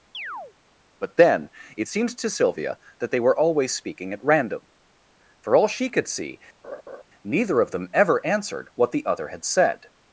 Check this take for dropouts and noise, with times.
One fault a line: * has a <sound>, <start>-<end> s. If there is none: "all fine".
* has a chirp, 0.1-0.5 s
* has a laugh, 6.6-7.0 s